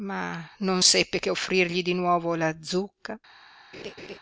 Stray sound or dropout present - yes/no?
yes